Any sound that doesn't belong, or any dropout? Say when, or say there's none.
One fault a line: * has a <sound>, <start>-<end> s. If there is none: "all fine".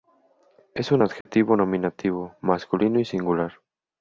* has a dropout, 1.2-1.3 s